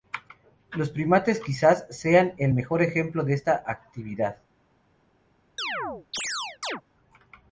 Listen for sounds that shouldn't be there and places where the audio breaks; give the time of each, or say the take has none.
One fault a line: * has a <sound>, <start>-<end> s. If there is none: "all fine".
* has a chirp, 5.6-6.8 s